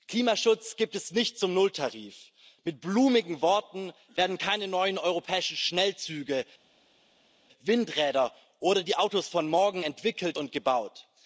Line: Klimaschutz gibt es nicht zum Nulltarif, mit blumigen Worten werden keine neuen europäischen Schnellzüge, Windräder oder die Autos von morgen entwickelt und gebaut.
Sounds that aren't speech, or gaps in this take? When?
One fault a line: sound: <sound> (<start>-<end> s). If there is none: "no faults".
no faults